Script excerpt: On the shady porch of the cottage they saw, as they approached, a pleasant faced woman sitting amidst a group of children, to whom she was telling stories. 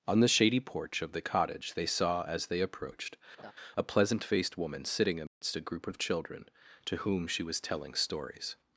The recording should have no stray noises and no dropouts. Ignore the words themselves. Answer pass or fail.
fail